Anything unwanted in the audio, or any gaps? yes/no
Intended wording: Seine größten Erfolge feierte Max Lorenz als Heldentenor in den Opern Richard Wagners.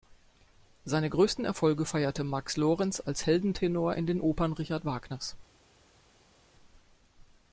no